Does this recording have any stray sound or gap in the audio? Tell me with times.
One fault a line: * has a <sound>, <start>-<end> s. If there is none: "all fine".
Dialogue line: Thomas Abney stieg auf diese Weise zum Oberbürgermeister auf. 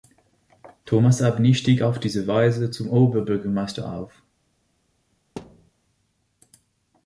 * has a thud, 5.4-5.7 s